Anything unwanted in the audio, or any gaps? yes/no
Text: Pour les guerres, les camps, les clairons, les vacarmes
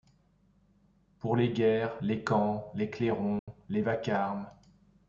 yes